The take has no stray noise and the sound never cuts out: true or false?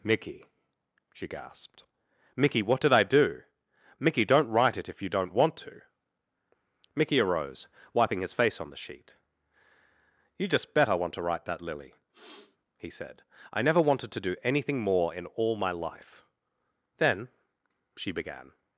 false